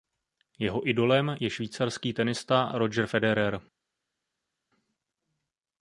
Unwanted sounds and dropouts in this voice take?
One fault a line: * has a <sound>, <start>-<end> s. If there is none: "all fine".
all fine